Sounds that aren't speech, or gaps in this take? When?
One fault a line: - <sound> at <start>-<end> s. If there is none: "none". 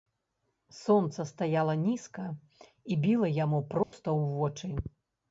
- dropout at 3.8-3.9 s